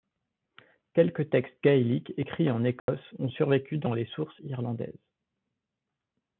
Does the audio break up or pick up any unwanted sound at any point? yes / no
yes